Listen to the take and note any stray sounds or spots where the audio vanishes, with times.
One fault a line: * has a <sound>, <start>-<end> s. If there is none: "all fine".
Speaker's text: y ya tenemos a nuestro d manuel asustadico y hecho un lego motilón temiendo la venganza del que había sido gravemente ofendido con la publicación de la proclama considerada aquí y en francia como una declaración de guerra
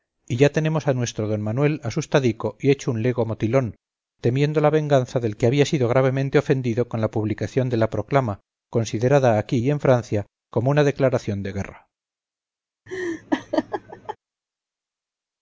* has a laugh, 12.9-14.2 s